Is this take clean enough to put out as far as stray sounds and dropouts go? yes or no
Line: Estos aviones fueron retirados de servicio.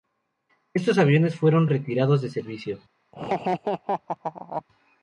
no